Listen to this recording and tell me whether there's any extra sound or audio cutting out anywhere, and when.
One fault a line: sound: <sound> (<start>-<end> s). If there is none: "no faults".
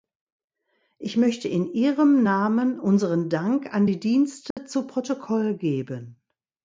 sound: dropout (4.5-4.6 s)